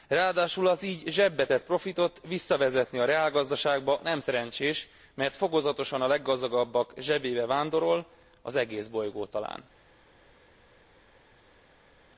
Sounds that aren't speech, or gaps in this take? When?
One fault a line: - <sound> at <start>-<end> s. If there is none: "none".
none